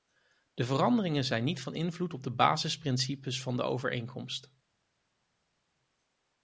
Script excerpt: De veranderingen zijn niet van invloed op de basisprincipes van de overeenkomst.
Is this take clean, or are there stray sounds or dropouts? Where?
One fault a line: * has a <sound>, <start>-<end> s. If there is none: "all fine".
all fine